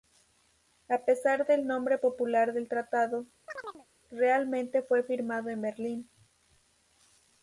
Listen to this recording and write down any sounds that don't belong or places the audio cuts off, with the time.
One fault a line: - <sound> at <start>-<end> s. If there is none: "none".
- chirp at 3.5-3.9 s